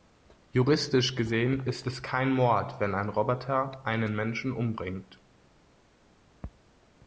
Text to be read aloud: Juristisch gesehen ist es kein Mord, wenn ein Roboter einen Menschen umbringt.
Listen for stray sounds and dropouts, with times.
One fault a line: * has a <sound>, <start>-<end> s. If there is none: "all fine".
all fine